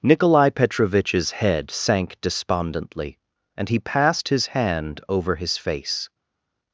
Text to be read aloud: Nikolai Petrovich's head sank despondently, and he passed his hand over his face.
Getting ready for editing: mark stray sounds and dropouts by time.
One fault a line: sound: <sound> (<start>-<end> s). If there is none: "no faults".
no faults